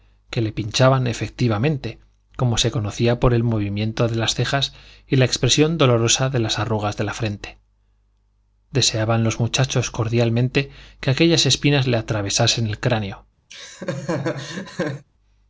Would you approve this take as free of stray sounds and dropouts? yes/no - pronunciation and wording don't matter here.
no